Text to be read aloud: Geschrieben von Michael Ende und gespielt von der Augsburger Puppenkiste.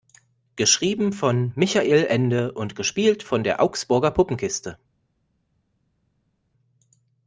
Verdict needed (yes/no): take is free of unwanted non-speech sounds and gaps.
yes